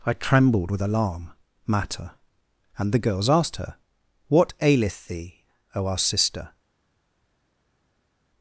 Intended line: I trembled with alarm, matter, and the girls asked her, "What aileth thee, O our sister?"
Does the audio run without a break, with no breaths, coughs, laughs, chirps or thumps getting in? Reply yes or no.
yes